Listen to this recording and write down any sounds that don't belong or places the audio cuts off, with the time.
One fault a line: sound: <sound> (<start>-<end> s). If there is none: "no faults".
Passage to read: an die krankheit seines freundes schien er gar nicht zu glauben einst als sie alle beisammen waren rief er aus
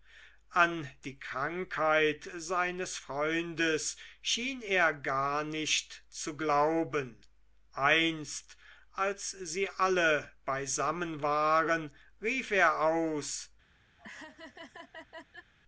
sound: laugh (14.0-15.5 s)